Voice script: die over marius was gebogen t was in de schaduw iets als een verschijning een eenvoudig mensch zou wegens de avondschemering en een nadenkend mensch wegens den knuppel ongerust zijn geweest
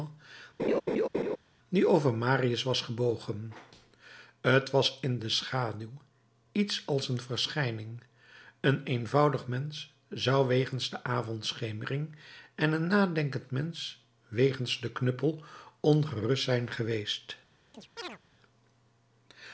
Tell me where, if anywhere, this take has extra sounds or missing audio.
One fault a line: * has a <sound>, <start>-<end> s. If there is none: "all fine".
* has a laugh, 0.6-1.4 s
* has a chirp, 17.7-18.2 s